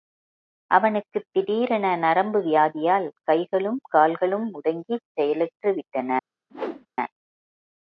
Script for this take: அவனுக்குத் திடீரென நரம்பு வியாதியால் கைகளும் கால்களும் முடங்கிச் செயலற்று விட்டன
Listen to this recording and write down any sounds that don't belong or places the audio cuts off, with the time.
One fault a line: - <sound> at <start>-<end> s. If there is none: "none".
- whoosh at 6.5-6.9 s